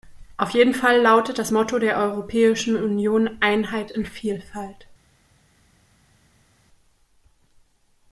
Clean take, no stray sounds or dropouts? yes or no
yes